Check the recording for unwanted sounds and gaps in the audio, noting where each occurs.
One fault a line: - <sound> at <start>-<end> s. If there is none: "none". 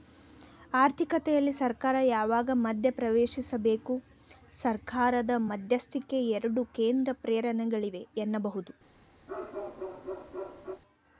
- bark at 9.3-10.8 s